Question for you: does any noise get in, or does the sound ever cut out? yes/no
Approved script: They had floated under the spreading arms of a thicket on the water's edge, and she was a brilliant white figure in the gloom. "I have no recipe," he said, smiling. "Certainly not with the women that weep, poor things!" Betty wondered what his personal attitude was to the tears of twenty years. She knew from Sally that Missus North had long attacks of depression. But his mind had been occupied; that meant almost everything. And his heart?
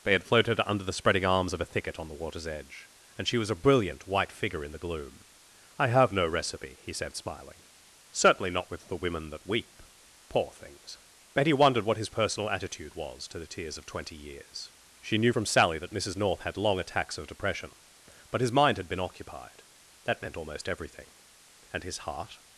no